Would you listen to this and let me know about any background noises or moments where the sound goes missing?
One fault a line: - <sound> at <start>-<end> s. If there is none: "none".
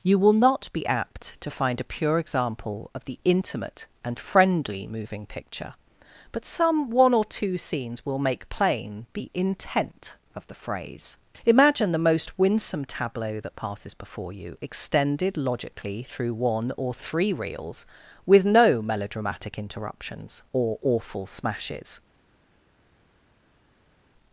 none